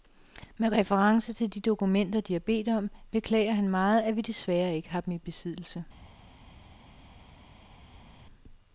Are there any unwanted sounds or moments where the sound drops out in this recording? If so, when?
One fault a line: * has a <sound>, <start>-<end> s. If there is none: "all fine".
all fine